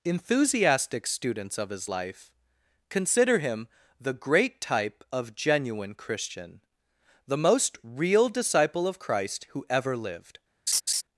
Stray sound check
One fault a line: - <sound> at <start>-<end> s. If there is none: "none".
- laugh at 10.7-11.0 s